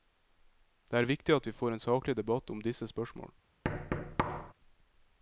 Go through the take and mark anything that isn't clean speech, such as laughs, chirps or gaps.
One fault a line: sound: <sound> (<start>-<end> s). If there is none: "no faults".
sound: thud (3.6-4.5 s)